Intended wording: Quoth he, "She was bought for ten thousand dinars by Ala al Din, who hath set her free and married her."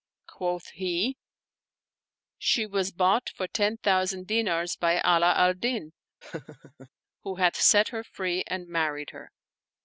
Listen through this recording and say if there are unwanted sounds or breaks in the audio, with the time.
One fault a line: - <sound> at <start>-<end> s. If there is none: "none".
- laugh at 6.2-6.9 s